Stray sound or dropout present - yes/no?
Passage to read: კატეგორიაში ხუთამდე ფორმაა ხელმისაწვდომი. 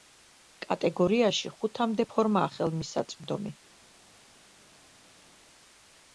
no